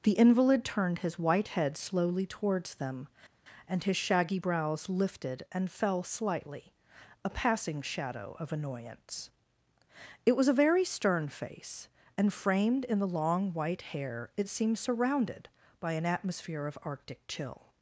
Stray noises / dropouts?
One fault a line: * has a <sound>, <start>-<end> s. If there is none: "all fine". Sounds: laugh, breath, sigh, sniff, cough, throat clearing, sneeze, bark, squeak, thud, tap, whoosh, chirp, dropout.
all fine